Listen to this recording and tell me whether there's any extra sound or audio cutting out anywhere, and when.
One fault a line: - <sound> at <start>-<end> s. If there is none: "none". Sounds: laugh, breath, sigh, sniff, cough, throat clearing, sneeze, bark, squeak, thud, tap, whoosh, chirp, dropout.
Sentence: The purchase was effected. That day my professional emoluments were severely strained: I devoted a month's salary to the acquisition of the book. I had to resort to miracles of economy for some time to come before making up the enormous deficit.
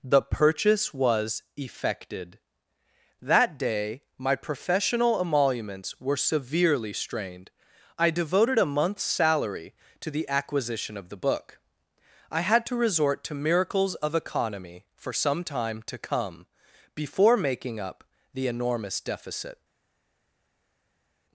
none